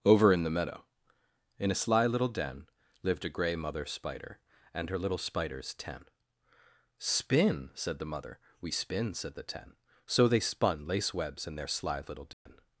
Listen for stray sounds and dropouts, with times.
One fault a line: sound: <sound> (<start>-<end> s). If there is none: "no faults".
sound: dropout (12.3-12.5 s)